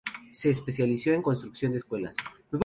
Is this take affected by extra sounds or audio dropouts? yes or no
no